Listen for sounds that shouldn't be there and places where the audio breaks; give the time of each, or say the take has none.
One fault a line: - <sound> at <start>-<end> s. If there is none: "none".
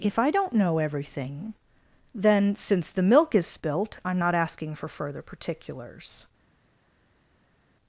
none